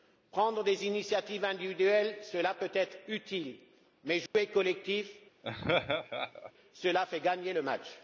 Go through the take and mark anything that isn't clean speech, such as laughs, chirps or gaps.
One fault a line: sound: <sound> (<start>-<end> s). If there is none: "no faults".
sound: dropout (4.3-4.3 s)
sound: laugh (5.4-6.5 s)